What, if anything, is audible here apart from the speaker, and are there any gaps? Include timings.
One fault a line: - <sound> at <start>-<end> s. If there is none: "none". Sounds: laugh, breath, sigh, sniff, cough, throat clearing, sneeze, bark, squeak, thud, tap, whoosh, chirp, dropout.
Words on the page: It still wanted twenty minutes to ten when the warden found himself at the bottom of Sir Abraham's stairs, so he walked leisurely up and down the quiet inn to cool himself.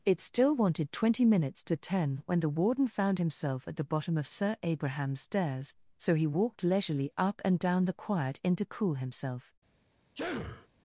- sneeze at 10.1-10.7 s